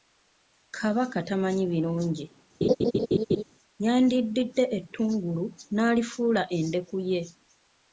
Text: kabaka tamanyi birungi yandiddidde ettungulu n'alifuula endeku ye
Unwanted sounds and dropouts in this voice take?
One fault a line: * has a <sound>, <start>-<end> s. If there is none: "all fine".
* has a laugh, 2.6-3.4 s